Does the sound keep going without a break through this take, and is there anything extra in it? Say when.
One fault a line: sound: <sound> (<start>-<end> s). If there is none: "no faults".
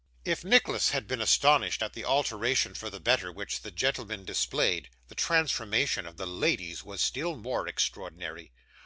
no faults